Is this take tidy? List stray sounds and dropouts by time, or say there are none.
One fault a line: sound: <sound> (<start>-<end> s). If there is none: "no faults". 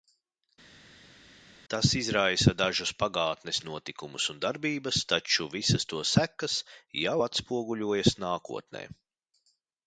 no faults